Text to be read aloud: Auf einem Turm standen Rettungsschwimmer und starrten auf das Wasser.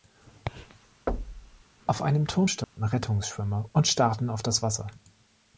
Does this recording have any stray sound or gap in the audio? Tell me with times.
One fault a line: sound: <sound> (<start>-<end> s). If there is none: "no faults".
sound: thud (1.1-1.6 s)
sound: dropout (2.6-2.8 s)